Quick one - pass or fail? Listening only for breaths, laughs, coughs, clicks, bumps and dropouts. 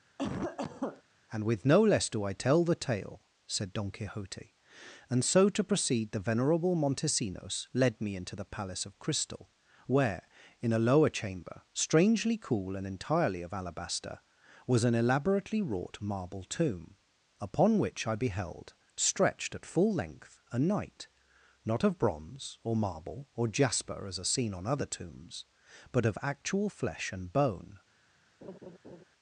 fail